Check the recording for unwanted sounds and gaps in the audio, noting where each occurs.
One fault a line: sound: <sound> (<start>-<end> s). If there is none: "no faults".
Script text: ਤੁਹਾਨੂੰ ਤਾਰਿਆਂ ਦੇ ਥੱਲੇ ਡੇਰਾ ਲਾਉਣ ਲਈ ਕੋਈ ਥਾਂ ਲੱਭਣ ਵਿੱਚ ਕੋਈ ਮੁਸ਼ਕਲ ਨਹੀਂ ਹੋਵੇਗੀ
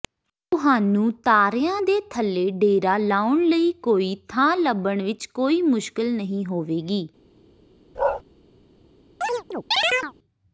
sound: bark (8.0-8.2 s)
sound: chirp (9.2-10.1 s)